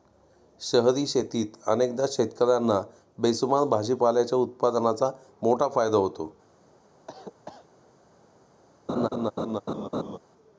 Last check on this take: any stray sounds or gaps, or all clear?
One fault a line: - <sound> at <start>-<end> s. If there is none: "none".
- cough at 7.1-7.7 s
- laugh at 8.9-10.2 s